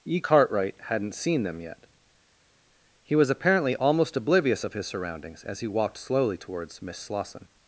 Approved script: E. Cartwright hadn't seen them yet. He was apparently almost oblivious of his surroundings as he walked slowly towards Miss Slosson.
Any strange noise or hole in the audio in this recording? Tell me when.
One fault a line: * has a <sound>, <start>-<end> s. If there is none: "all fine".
all fine